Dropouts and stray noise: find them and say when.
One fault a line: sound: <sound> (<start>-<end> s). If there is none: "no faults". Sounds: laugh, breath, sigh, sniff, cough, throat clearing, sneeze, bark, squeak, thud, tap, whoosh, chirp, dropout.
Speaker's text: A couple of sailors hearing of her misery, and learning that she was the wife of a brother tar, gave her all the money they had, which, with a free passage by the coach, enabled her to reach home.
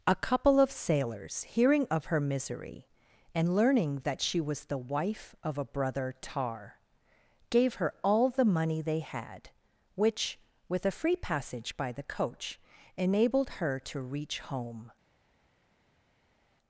no faults